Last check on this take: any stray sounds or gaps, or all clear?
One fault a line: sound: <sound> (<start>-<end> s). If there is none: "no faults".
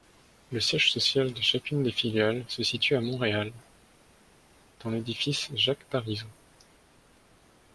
no faults